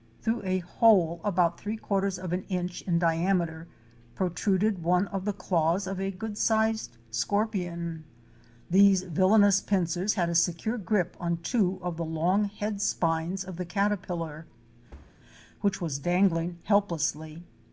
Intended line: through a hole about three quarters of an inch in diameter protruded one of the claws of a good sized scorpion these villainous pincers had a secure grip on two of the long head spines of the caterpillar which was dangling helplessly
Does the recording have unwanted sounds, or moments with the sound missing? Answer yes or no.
yes